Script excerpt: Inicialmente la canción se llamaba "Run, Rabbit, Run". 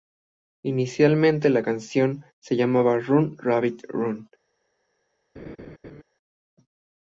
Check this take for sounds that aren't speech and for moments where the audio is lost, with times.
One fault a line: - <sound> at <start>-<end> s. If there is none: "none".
- laugh at 5.4-6.0 s